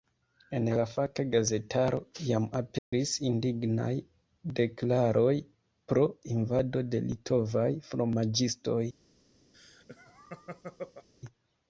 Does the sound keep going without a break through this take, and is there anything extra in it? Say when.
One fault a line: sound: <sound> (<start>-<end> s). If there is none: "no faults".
sound: dropout (2.8-2.9 s)
sound: laugh (9.5-11.1 s)